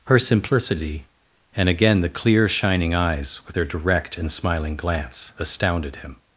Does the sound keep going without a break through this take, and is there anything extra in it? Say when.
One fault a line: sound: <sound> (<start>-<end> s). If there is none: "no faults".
no faults